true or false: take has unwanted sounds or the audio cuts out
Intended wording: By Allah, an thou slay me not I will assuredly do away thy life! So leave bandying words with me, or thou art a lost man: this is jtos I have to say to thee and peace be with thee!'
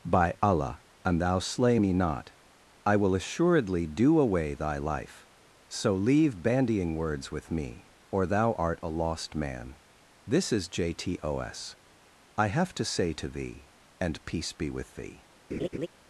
true